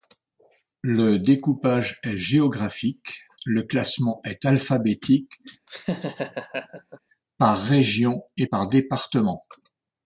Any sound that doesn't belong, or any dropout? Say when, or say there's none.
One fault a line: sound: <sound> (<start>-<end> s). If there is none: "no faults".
sound: laugh (5.7-7.0 s)